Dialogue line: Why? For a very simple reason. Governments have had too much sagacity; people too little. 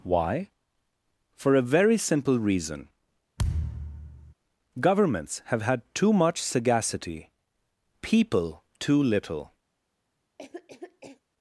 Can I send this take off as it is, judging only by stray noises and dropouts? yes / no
no